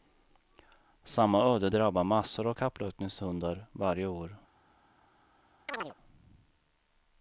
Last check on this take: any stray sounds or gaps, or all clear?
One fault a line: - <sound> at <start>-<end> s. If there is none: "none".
- chirp at 5.7-5.9 s